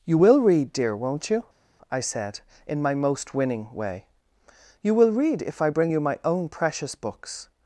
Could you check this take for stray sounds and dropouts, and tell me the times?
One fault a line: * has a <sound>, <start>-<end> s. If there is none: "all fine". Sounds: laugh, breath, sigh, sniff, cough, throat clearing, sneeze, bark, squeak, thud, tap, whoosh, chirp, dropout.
all fine